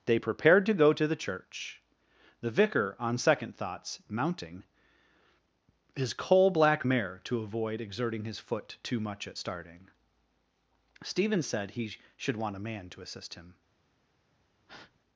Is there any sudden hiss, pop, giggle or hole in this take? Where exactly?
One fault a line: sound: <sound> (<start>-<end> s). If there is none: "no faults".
sound: breath (14.7-15.0 s)